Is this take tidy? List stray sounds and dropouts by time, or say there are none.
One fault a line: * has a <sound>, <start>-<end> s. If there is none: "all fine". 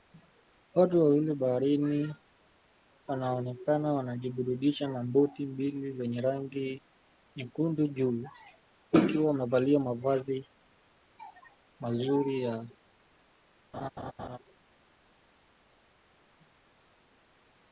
* has a laugh, 13.7-14.4 s